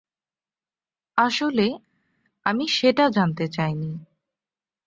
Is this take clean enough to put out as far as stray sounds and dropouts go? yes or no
yes